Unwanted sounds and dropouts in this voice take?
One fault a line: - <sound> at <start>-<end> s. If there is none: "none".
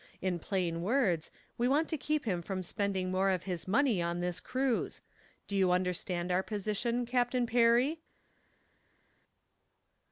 none